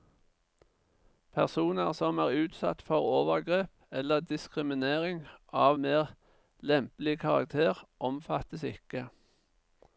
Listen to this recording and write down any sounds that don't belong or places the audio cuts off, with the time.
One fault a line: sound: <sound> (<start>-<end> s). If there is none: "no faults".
no faults